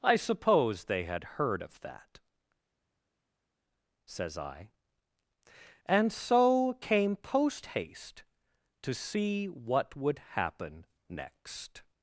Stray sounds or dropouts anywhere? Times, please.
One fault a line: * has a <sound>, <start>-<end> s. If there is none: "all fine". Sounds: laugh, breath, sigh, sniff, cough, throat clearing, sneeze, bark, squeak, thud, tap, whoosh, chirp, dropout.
all fine